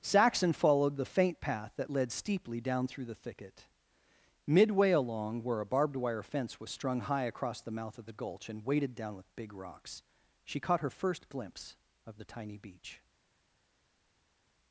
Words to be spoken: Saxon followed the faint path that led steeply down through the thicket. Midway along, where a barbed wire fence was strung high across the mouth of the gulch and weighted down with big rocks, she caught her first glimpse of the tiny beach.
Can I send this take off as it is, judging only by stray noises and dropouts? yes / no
yes